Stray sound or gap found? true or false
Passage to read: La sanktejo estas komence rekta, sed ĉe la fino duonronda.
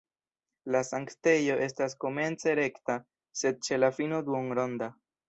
false